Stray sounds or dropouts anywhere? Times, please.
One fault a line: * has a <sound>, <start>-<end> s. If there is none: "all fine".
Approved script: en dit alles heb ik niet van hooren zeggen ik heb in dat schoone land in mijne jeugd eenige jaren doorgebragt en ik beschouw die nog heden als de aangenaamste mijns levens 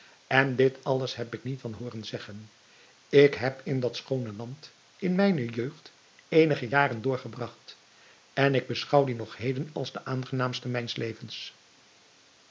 all fine